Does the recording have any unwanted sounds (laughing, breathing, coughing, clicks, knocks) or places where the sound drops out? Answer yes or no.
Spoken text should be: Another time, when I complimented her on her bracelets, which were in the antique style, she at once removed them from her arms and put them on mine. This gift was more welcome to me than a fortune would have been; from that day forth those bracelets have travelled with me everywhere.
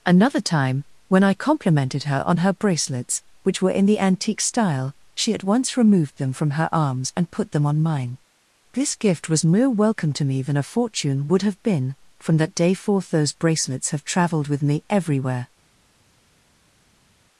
no